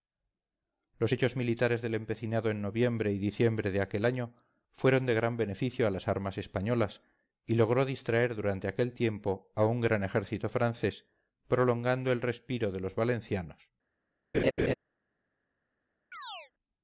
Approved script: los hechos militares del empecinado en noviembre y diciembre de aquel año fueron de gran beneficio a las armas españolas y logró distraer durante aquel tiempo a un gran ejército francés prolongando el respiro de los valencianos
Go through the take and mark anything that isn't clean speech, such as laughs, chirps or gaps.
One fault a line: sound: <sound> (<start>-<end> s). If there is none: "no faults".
sound: laugh (14.3-14.7 s)
sound: chirp (16.1-16.5 s)